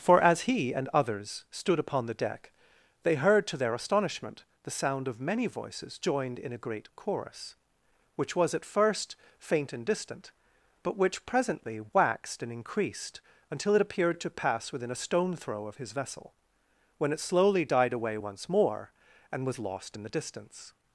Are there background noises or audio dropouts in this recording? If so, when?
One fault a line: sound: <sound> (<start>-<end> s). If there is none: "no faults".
no faults